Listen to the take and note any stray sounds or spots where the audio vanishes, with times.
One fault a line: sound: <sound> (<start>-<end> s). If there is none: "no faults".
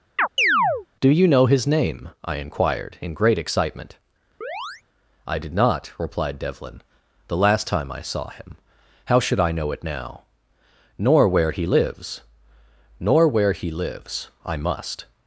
sound: chirp (0.2-0.9 s)
sound: chirp (4.4-4.8 s)